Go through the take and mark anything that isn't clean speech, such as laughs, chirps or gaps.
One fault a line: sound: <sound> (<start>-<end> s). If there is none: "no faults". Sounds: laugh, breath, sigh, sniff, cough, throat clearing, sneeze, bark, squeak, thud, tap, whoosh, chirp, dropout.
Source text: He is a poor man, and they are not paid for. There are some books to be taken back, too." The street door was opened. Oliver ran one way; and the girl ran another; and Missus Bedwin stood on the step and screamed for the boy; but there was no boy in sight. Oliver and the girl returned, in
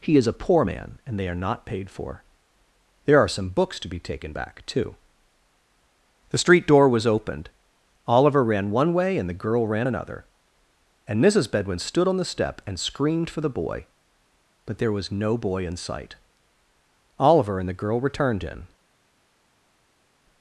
no faults